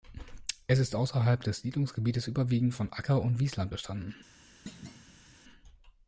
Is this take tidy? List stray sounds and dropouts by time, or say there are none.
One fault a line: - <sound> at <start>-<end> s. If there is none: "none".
- thud at 4.7-5.4 s